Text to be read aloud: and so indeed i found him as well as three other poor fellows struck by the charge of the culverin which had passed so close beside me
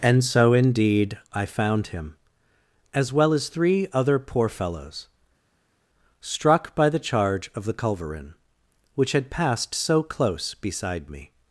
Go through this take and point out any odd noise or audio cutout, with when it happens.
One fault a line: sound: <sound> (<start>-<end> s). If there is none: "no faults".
no faults